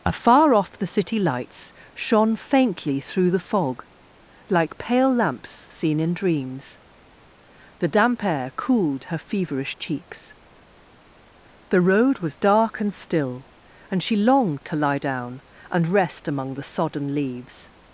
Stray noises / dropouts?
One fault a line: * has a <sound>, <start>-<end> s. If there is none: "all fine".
all fine